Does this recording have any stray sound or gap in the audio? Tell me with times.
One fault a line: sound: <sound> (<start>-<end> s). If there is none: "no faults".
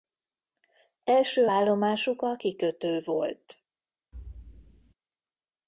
sound: thud (4.1-4.9 s)